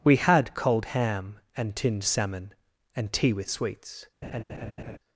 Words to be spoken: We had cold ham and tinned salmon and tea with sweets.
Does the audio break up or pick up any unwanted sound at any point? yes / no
yes